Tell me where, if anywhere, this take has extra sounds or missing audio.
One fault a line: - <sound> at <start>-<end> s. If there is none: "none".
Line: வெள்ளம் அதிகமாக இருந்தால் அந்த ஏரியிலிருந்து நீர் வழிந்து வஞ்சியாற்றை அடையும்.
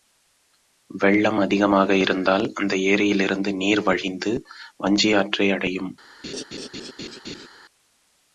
- laugh at 6.2-7.5 s